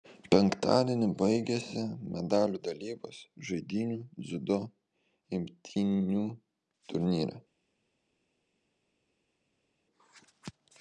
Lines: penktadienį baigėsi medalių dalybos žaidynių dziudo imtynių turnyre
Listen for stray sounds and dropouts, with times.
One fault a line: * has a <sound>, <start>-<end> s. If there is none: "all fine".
all fine